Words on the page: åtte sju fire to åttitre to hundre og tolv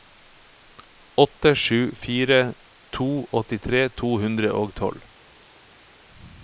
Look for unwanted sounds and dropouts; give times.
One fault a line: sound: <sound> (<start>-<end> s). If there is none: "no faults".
no faults